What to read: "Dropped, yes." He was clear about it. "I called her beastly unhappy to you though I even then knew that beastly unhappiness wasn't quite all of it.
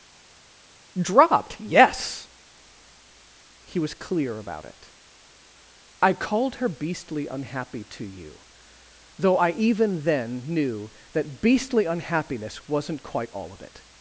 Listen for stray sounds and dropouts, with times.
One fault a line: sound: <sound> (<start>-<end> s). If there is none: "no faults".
no faults